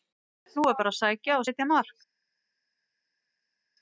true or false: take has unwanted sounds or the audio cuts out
false